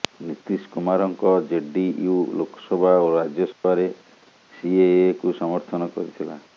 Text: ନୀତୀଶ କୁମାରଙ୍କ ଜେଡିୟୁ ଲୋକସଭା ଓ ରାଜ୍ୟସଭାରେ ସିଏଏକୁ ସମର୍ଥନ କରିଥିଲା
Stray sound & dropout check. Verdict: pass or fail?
fail